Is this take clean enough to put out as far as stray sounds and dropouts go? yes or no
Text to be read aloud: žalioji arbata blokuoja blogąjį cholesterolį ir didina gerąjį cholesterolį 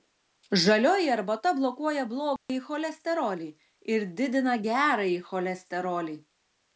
no